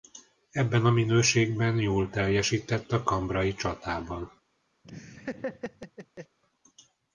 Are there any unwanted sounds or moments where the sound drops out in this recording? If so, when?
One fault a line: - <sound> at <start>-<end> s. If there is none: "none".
- laugh at 4.8-6.4 s